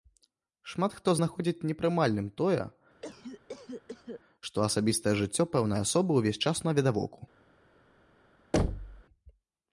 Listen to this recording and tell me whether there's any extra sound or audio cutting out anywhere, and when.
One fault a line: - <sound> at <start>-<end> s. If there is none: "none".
- cough at 3.0-4.2 s
- thud at 8.5-9.0 s